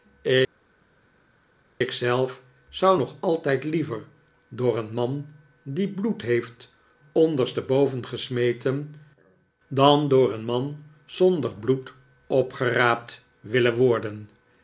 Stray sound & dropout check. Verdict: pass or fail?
pass